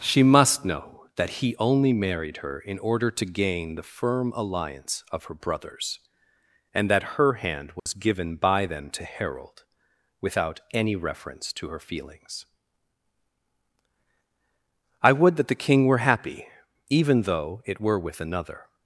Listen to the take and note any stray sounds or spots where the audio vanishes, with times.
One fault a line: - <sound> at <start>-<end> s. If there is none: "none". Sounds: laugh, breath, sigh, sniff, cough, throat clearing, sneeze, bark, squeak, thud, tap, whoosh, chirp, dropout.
- dropout at 7.8-7.9 s